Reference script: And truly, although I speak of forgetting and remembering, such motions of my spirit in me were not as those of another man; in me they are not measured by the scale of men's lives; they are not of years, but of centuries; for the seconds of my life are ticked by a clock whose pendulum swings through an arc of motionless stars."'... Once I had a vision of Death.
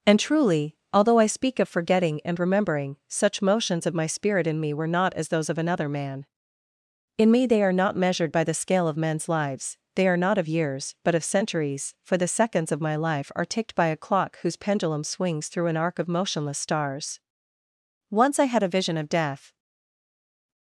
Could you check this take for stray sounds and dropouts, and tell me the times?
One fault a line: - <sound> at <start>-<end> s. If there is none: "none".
none